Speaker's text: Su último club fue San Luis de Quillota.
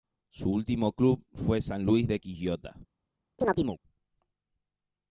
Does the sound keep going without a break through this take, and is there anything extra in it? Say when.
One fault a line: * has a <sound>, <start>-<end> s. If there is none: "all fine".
* has a chirp, 3.4-3.8 s